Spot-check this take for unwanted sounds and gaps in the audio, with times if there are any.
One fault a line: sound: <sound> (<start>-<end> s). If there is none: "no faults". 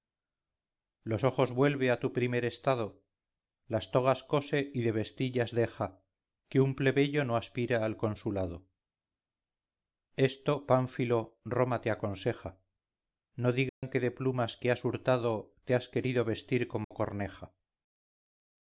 sound: dropout (13.7-13.8 s)
sound: dropout (16.8-16.9 s)